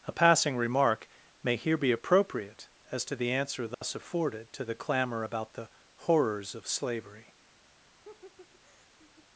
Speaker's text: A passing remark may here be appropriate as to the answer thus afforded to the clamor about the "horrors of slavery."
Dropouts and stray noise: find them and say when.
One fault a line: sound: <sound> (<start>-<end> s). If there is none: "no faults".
sound: dropout (3.7-3.8 s)
sound: laugh (8.0-9.3 s)